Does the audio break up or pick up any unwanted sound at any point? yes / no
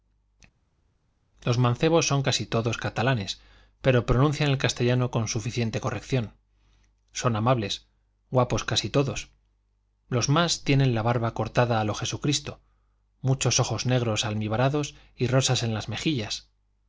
no